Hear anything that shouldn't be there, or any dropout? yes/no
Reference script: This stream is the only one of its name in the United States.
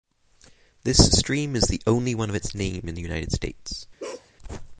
yes